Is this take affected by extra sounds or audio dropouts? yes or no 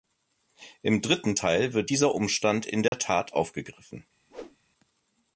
yes